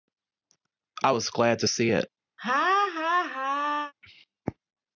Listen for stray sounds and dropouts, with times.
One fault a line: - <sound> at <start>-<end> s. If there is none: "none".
- laugh at 2.4-3.9 s